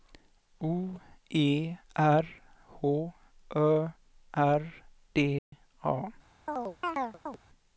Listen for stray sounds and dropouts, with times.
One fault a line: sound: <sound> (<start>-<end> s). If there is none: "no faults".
sound: dropout (5.4-5.5 s)
sound: chirp (6.5-7.4 s)